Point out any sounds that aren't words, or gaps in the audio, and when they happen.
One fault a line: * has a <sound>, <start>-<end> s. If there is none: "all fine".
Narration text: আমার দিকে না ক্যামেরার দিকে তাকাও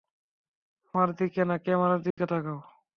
* has a dropout, 2.1-2.2 s